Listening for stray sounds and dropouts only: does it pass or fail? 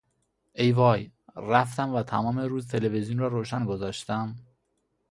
pass